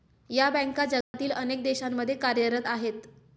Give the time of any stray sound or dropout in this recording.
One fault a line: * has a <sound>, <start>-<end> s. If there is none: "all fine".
* has a dropout, 1.0-1.1 s